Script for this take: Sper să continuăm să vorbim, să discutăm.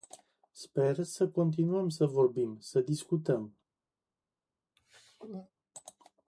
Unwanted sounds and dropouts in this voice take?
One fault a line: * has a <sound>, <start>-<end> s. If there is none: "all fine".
* has a throat clearing, 4.8-5.5 s